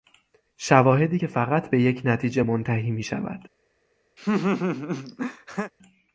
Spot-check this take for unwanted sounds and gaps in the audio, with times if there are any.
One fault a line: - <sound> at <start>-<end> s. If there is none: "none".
- laugh at 4.2-5.7 s